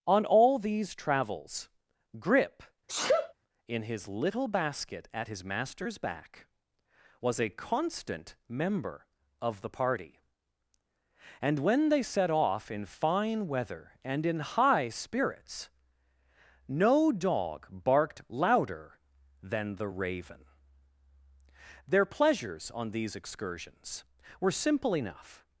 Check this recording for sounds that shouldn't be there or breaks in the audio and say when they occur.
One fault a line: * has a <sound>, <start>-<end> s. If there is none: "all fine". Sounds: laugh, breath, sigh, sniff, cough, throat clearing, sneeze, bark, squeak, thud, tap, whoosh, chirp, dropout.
* has a sneeze, 2.9-3.3 s